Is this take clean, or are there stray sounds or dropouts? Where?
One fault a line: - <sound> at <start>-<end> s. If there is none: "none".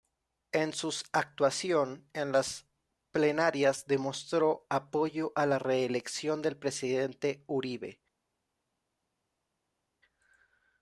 none